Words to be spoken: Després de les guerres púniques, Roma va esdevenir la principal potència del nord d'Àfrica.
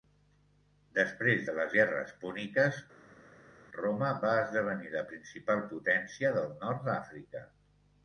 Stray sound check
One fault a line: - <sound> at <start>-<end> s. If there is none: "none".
none